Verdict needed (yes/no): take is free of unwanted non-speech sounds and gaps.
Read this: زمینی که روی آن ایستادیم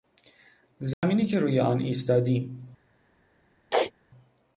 no